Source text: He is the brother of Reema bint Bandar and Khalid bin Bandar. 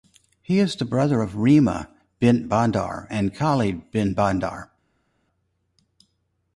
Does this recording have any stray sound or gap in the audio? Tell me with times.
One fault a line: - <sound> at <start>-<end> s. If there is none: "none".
none